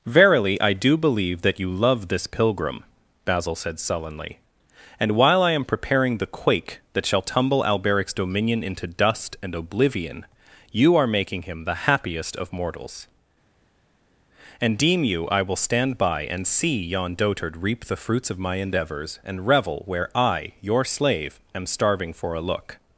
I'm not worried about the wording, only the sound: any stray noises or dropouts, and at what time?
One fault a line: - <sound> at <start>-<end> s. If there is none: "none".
none